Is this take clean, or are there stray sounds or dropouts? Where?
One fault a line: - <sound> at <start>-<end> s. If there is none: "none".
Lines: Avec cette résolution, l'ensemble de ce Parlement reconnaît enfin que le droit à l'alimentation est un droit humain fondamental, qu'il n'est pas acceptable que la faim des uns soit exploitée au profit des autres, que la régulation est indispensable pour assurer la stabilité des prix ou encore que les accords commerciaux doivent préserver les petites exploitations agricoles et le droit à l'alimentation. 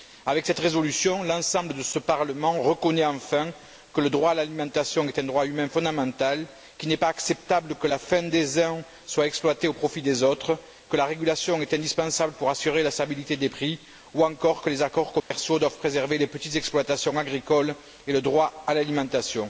- dropout at 15.2-15.3 s